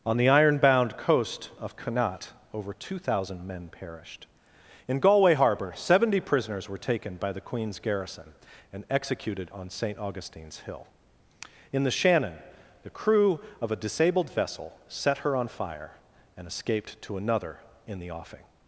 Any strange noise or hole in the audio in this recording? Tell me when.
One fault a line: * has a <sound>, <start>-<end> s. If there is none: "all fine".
all fine